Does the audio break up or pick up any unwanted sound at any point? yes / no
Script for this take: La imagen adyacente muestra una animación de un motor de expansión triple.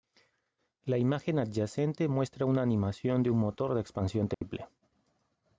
yes